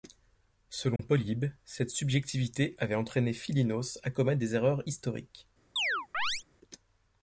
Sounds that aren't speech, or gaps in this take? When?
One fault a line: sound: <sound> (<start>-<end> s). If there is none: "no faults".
sound: dropout (1.0-1.0 s)
sound: chirp (5.8-6.4 s)